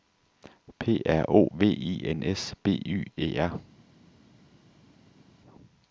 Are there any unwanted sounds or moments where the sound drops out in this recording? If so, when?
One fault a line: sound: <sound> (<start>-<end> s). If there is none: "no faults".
no faults